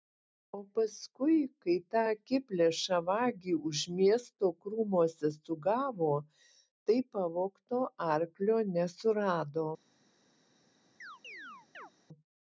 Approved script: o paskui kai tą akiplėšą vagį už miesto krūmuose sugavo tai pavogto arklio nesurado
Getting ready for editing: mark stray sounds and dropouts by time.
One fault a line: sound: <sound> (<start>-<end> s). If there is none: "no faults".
sound: chirp (11.0-11.9 s)